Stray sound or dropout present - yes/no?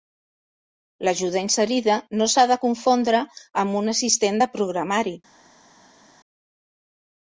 no